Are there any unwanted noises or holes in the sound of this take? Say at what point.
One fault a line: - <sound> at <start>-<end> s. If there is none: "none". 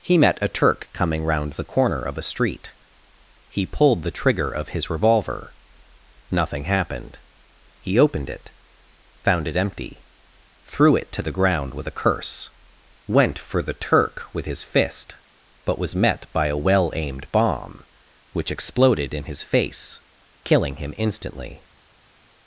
none